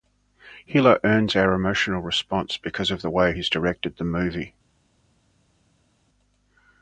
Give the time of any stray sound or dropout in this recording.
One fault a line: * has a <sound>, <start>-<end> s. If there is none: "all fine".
all fine